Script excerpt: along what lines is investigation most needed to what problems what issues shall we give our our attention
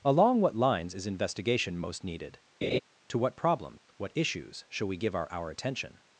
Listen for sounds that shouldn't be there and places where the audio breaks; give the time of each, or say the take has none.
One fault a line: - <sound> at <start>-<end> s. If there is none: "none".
- laugh at 2.6-2.8 s
- dropout at 3.8-3.9 s